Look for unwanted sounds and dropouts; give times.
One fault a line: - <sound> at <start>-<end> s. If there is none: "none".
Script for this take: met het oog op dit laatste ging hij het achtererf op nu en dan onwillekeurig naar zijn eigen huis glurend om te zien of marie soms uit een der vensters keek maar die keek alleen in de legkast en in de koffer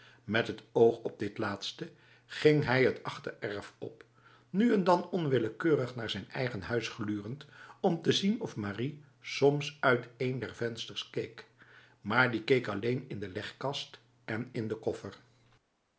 none